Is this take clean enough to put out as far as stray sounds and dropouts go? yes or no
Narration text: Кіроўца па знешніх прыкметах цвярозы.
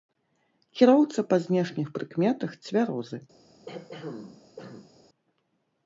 no